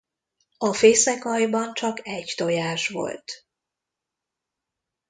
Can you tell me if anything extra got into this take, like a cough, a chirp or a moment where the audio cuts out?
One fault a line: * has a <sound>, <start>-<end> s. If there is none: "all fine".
all fine